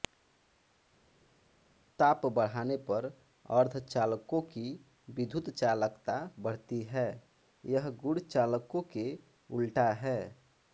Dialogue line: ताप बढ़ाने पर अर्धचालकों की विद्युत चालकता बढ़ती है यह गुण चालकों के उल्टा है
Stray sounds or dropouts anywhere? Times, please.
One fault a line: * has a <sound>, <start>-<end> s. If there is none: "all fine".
all fine